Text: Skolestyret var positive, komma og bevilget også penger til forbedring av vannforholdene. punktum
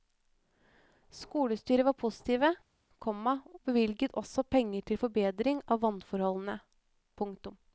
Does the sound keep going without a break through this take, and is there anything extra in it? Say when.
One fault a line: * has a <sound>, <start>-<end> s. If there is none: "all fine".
all fine